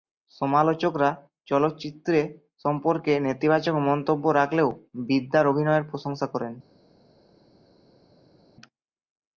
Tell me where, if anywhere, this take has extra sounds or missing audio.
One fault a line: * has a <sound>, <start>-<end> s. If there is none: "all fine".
all fine